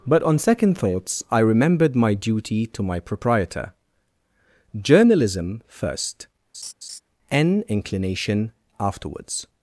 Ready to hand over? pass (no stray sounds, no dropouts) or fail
fail